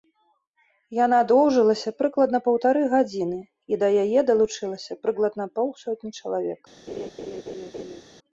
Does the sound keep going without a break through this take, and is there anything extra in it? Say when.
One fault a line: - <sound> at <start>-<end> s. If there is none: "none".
- laugh at 6.9-8.0 s